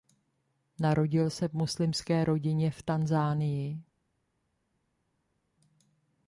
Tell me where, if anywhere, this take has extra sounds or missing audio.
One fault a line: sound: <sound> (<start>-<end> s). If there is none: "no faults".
no faults